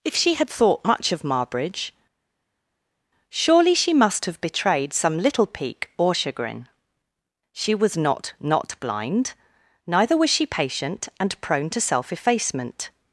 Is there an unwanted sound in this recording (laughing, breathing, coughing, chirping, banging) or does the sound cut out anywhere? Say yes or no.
no